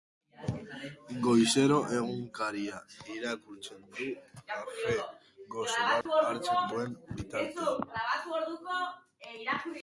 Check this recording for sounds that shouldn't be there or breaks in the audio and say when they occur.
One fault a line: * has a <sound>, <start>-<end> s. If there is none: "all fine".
* has a dropout, 6.0-6.1 s